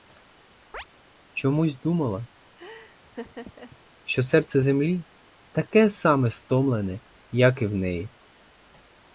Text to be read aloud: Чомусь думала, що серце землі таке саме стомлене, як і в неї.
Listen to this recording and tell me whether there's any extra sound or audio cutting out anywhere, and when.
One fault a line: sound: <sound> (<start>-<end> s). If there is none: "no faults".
sound: chirp (0.7-0.9 s)
sound: laugh (2.6-3.8 s)